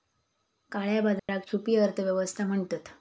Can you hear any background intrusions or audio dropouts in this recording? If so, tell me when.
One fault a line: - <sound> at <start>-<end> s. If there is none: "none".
- dropout at 1.2-1.3 s